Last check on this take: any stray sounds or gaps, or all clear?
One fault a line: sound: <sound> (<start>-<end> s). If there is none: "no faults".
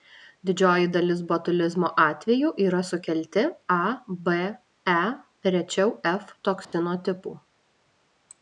sound: dropout (6.6-6.7 s)